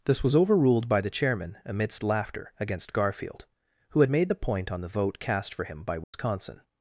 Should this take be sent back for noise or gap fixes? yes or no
yes